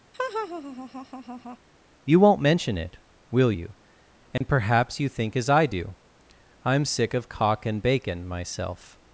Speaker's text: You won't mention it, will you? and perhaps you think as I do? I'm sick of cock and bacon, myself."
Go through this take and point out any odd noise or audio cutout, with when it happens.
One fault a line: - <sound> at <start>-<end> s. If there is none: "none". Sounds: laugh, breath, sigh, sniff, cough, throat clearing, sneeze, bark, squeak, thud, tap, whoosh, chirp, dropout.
- laugh at 0.1-1.6 s
- dropout at 4.4-4.4 s